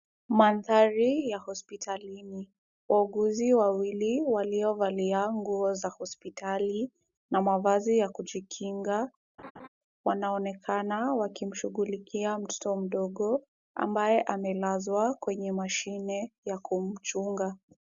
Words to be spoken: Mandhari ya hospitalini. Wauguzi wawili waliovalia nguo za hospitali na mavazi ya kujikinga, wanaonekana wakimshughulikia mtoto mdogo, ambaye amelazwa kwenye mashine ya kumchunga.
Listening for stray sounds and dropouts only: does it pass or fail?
fail